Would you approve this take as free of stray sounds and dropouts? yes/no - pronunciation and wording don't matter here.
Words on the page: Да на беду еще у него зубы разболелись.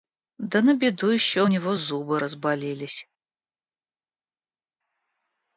yes